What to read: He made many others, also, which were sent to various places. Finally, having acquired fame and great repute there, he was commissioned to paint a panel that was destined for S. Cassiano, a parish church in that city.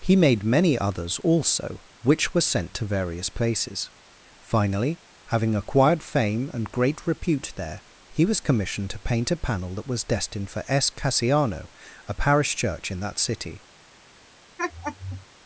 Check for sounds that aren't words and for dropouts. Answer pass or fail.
fail